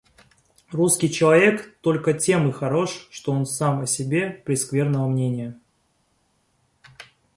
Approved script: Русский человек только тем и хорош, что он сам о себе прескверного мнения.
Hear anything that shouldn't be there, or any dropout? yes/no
no